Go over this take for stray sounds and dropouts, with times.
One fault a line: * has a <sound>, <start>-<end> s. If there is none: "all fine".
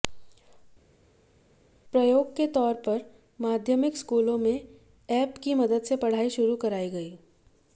all fine